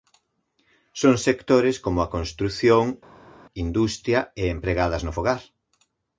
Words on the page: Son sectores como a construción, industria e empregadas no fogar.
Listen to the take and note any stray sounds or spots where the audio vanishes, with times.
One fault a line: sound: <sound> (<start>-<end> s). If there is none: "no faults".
no faults